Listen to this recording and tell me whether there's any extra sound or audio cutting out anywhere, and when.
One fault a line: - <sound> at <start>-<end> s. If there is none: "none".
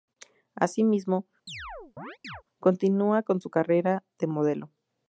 - chirp at 1.5-2.4 s